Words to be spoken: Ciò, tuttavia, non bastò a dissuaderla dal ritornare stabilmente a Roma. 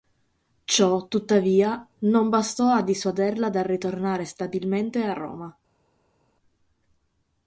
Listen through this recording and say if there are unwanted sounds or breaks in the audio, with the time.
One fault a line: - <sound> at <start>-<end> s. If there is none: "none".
none